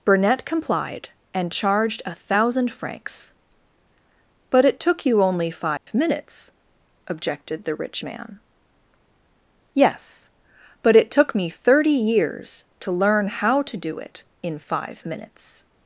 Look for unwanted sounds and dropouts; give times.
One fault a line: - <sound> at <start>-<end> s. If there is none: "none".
- dropout at 5.8-5.9 s